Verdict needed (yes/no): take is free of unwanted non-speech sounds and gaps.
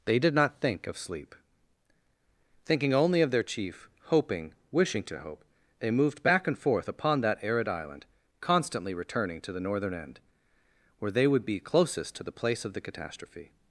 yes